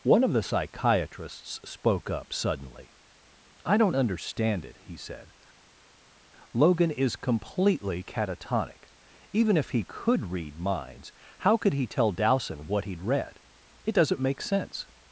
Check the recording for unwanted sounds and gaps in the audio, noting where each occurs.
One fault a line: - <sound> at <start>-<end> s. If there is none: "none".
none